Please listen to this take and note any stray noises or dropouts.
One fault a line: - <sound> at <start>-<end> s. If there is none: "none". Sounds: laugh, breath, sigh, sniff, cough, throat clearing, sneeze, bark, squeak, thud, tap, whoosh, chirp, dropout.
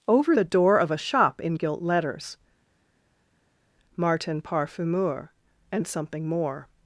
none